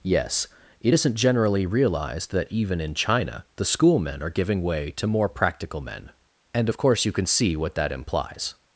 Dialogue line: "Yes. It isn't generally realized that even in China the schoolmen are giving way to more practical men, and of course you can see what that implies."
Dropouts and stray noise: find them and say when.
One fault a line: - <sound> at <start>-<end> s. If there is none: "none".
none